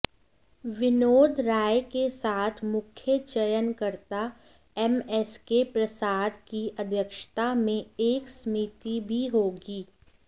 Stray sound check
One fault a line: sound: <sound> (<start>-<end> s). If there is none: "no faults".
no faults